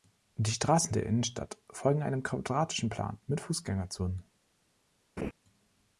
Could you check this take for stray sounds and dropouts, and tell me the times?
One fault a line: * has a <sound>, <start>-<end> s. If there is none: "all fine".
* has a laugh, 5.2-5.3 s